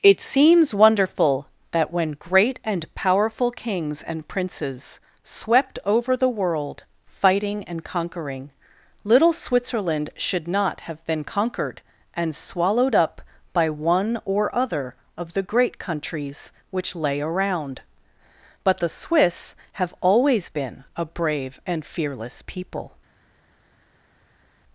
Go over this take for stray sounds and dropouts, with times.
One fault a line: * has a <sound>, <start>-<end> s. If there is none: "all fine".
all fine